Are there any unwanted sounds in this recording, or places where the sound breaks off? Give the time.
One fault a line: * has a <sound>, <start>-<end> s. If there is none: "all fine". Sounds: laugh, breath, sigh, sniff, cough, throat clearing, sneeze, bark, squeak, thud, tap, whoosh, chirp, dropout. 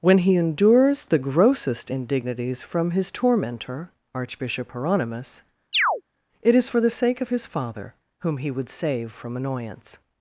* has a chirp, 5.7-6.0 s